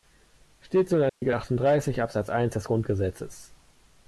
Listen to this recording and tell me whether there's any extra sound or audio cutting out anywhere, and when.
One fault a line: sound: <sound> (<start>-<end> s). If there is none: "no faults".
sound: dropout (1.1-1.2 s)